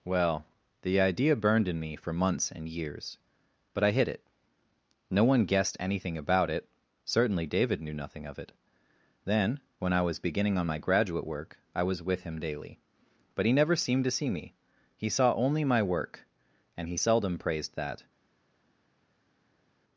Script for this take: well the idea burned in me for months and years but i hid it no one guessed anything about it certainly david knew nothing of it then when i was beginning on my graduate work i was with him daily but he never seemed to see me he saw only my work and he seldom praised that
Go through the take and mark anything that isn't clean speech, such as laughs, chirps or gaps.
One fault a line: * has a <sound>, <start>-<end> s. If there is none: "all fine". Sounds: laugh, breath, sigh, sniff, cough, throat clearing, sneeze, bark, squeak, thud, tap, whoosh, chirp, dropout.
all fine